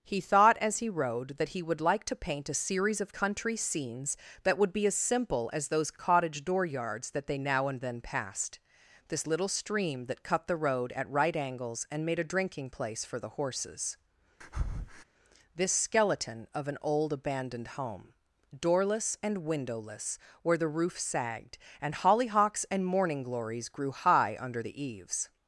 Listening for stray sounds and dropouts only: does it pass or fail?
fail